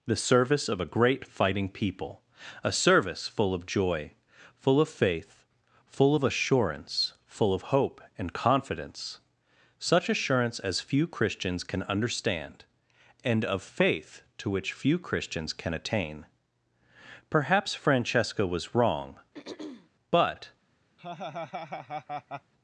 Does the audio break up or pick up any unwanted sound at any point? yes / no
yes